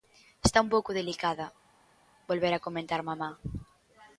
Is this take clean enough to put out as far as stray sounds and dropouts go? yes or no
yes